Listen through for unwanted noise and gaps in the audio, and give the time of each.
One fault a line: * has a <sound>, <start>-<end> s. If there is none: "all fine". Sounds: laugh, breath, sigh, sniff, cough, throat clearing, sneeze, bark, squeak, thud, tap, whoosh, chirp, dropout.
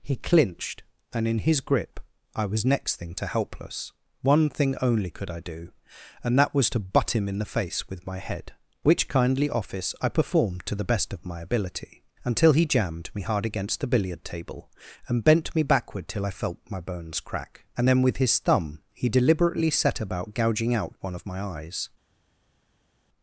all fine